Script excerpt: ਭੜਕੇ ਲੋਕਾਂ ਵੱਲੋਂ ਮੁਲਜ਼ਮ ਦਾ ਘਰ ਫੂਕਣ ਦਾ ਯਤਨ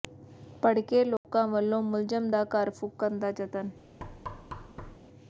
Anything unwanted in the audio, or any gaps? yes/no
yes